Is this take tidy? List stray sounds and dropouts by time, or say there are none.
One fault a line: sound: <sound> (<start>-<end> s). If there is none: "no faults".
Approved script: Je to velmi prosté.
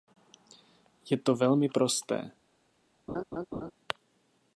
sound: laugh (3.1-3.7 s)